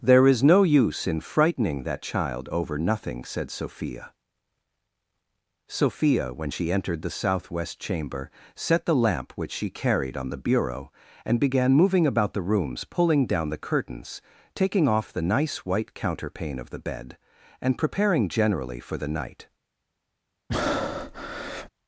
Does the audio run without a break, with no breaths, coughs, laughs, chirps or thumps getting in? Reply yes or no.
no